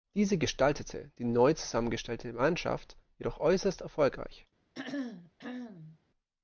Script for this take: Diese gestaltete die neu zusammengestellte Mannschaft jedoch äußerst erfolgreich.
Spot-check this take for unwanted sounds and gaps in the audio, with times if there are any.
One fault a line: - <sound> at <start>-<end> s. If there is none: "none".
- throat clearing at 4.7-6.0 s